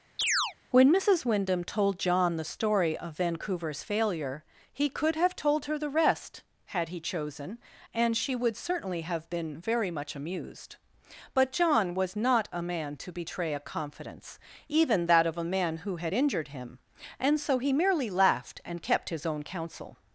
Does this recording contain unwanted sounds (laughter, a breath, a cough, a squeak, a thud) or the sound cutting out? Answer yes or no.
yes